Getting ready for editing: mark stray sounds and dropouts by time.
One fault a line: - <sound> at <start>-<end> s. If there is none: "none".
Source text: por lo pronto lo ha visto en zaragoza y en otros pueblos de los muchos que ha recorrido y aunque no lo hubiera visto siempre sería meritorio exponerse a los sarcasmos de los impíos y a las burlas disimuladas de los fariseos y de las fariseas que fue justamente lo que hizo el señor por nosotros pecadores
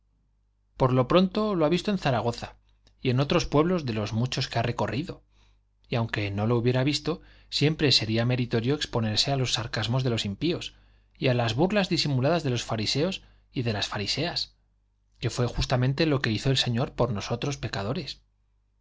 none